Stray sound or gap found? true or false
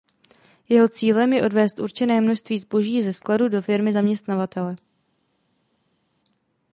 false